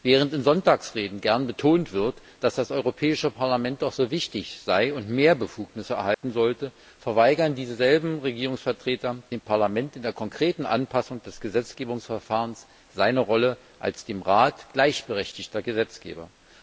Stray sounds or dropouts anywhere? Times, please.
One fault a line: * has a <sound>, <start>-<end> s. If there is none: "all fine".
* has a dropout, 6.1-6.2 s